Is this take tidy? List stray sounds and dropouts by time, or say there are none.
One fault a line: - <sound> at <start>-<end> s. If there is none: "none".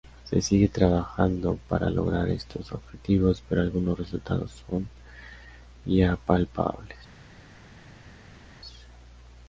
none